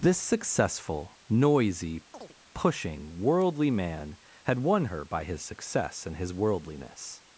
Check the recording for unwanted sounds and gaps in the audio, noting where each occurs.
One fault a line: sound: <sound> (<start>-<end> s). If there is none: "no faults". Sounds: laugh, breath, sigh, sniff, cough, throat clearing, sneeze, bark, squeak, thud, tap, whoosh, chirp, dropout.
sound: chirp (2.1-2.4 s)